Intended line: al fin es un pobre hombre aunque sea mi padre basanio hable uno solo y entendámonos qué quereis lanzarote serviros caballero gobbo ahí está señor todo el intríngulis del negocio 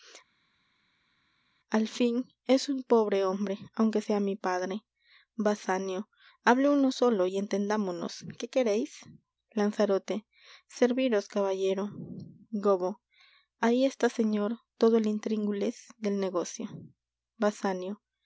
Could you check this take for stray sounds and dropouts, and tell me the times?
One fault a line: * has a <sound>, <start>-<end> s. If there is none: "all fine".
all fine